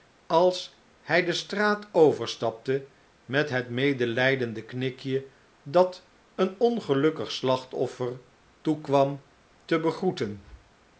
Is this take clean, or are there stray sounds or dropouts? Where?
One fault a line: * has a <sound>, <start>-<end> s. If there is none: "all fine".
all fine